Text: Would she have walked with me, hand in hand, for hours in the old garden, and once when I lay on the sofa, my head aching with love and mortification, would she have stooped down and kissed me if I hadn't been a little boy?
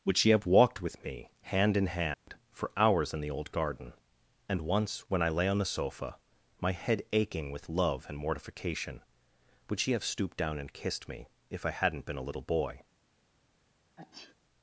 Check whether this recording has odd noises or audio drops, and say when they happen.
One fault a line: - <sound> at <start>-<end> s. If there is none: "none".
- dropout at 2.1-2.3 s
- sneeze at 14.0-14.3 s